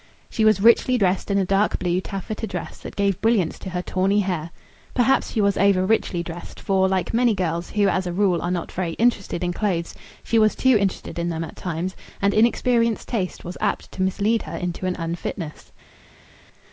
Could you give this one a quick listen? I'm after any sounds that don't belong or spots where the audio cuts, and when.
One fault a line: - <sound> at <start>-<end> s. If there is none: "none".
none